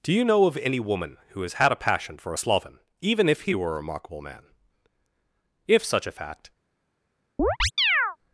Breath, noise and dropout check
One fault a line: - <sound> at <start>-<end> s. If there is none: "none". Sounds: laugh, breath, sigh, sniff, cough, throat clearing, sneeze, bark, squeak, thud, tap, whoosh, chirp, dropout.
- chirp at 7.4-8.2 s